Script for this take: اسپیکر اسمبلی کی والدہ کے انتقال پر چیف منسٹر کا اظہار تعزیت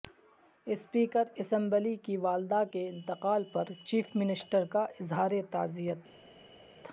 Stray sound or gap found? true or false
false